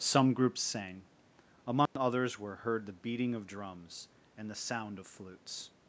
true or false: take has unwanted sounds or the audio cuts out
true